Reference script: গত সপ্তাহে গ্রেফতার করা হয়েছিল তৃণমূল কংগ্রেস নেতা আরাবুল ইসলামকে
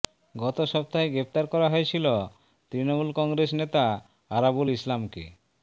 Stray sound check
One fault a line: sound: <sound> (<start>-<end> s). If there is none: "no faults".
no faults